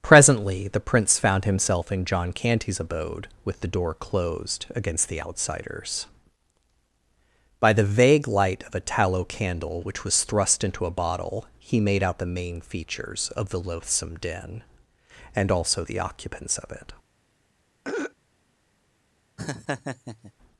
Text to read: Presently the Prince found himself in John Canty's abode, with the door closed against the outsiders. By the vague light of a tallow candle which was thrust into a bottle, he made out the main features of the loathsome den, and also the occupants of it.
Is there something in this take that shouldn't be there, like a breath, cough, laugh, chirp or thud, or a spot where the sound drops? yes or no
yes